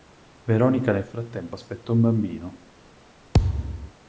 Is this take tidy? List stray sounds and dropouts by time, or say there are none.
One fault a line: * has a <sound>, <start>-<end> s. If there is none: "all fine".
* has a thud, 3.3-3.9 s